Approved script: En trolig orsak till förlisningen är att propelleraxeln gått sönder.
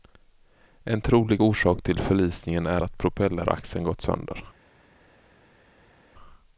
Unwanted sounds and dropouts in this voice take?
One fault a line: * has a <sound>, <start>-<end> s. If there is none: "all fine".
all fine